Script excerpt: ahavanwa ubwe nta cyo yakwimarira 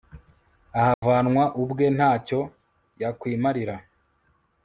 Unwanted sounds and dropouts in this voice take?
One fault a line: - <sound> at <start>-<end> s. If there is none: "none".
- dropout at 0.9-1.0 s